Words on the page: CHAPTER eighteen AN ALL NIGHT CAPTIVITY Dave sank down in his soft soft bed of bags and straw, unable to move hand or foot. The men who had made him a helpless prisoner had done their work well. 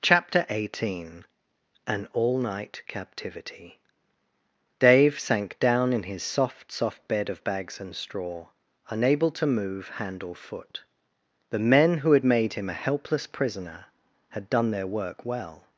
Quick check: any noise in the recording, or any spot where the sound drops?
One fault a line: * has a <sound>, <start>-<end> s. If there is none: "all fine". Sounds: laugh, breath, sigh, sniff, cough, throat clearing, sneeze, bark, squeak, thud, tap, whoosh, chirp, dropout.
all fine